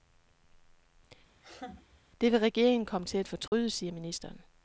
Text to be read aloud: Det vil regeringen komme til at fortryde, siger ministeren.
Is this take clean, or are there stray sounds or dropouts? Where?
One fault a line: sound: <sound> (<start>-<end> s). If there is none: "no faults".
sound: laugh (1.4-2.0 s)
sound: dropout (3.5-3.5 s)